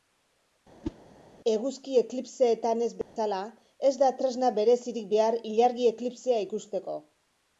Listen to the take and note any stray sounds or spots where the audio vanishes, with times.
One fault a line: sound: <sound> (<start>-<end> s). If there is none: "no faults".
sound: whoosh (0.8-1.0 s)
sound: dropout (3.0-3.2 s)